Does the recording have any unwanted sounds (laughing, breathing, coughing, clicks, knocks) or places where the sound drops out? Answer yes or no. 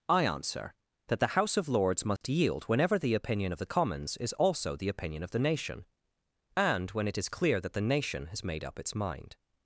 yes